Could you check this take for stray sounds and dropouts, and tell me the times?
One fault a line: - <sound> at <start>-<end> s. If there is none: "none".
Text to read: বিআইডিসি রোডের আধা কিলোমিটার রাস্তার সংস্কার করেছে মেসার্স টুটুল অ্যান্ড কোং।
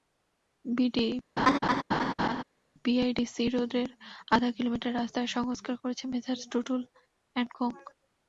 - laugh at 1.4-2.4 s